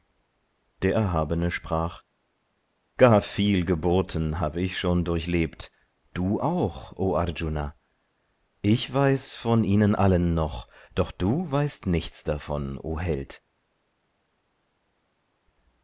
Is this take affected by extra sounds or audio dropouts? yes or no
no